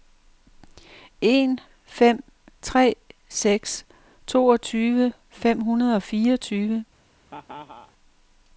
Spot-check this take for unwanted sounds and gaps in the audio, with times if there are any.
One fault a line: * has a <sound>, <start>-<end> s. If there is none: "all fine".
* has a laugh, 7.3-7.9 s